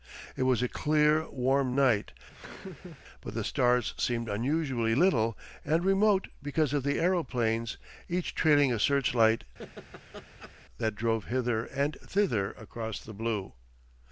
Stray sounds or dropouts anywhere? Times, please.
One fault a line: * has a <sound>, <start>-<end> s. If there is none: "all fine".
* has a laugh, 2.3-3.0 s
* has a laugh, 9.6-10.5 s